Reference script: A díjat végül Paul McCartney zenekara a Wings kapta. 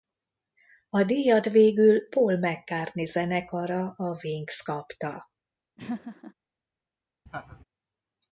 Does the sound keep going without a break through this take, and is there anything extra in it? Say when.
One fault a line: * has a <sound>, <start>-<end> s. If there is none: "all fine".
* has a laugh, 5.8-6.3 s
* has a laugh, 7.3-7.6 s